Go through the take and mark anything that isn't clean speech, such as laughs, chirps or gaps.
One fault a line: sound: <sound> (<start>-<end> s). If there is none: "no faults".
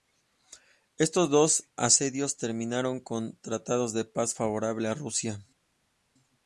no faults